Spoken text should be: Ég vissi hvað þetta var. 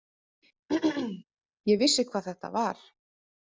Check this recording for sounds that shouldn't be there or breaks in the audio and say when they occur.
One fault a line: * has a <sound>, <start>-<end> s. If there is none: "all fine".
* has a throat clearing, 0.7-1.2 s